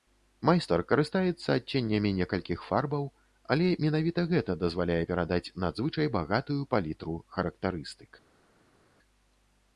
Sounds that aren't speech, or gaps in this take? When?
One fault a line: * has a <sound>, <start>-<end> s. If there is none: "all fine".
all fine